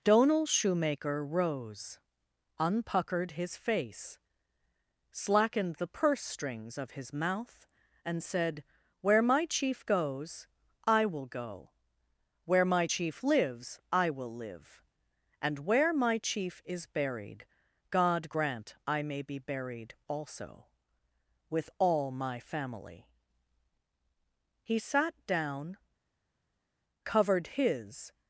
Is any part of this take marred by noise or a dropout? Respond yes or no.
no